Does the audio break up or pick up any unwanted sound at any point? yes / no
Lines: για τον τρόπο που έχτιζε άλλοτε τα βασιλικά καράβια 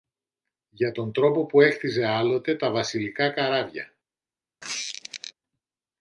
yes